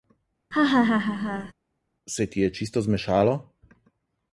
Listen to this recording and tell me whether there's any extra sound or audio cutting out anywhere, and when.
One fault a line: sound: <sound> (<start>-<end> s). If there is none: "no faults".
sound: laugh (0.5-1.5 s)